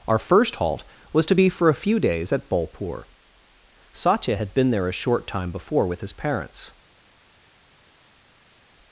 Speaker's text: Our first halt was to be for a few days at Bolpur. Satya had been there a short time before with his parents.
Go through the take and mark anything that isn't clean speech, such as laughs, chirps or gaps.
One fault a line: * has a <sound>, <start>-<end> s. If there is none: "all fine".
all fine